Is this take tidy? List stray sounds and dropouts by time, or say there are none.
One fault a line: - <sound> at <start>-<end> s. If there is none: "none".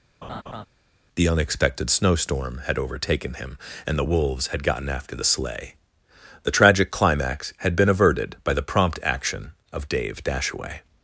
- laugh at 0.2-0.7 s